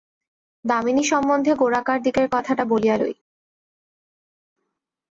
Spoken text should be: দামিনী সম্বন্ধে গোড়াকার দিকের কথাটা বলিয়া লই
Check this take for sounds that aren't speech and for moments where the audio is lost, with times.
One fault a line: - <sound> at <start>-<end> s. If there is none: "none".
none